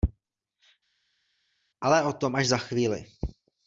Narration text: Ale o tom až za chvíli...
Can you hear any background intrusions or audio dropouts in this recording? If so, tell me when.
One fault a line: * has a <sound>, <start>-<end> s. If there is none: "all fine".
all fine